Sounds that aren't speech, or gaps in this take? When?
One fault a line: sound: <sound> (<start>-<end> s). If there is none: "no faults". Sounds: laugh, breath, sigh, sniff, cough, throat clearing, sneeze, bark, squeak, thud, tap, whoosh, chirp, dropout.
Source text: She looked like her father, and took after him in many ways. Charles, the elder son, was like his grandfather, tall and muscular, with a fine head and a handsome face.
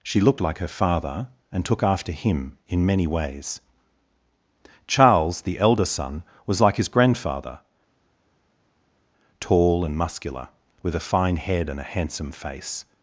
no faults